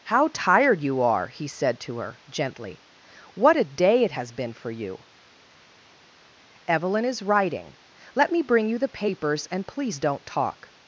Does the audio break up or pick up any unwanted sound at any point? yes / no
no